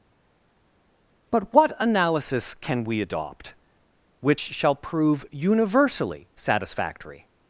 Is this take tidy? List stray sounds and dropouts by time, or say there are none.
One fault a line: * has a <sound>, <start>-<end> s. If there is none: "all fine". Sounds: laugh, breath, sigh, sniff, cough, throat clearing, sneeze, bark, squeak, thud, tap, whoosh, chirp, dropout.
all fine